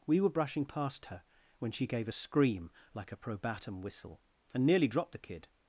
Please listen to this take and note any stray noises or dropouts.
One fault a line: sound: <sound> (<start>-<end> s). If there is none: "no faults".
no faults